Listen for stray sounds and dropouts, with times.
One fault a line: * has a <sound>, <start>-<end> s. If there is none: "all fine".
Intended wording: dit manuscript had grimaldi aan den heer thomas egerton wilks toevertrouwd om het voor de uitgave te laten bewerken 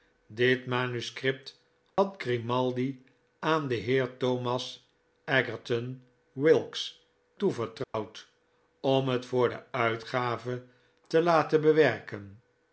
* has a dropout, 1.9-2.0 s
* has a dropout, 7.8-7.9 s